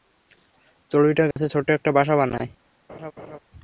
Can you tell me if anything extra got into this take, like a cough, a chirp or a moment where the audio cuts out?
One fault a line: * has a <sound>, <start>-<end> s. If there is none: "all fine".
* has a dropout, 1.3-1.4 s
* has a laugh, 2.9-3.4 s